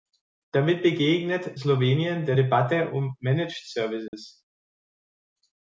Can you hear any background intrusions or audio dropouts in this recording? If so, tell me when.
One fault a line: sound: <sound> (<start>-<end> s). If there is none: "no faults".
sound: dropout (4.1-4.1 s)